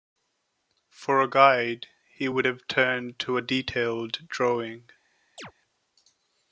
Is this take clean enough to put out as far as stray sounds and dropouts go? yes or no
no